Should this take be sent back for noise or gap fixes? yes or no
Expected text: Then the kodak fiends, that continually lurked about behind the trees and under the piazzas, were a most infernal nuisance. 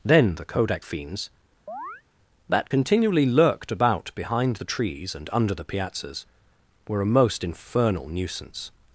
yes